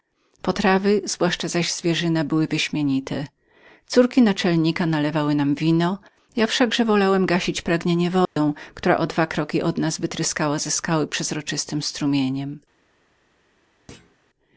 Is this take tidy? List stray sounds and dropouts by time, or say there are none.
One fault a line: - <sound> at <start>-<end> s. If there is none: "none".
- dropout at 8.3-8.4 s
- thud at 13.9-14.2 s